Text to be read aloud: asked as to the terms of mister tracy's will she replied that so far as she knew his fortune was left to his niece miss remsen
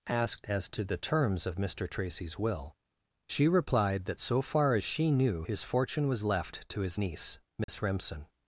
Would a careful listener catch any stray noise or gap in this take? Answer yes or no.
yes